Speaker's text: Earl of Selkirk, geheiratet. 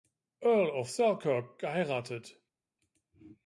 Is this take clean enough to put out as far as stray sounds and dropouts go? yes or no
yes